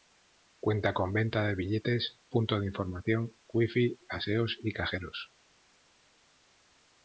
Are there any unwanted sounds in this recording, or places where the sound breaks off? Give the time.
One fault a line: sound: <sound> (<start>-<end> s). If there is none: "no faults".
no faults